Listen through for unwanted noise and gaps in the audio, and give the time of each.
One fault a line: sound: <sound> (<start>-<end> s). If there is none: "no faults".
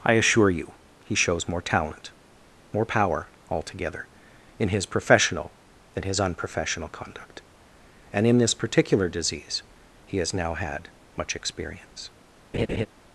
sound: laugh (12.5-12.9 s)